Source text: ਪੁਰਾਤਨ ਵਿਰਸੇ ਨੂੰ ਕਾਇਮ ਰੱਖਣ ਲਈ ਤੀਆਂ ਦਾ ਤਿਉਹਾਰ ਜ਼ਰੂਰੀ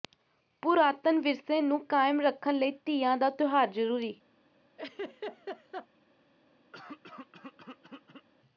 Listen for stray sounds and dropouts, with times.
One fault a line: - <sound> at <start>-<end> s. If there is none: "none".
- laugh at 4.8-5.9 s
- throat clearing at 6.7-8.3 s